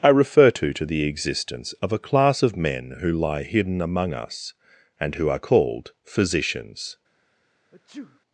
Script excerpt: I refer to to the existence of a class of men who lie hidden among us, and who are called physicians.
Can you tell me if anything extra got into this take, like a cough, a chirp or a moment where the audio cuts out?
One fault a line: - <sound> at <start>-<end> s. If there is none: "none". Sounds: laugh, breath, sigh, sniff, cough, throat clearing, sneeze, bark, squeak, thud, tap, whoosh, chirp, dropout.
- sneeze at 7.7-8.2 s